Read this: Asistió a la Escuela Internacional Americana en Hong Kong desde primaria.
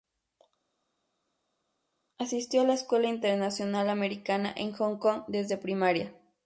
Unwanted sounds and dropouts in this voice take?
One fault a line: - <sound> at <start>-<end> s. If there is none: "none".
none